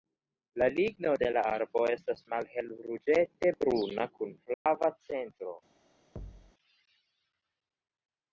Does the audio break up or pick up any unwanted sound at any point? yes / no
yes